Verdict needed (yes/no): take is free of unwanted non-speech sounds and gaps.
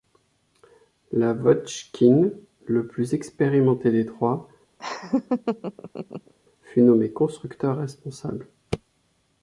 no